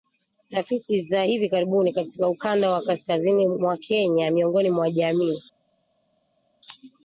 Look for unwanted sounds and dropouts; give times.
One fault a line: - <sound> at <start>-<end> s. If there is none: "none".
none